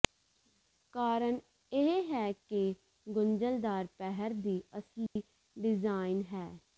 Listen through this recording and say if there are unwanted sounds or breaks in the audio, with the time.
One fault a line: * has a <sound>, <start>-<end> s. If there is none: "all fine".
* has a dropout, 5.1-5.2 s